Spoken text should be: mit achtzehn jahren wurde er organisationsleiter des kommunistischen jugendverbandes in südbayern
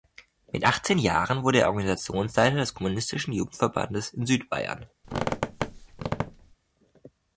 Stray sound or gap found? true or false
true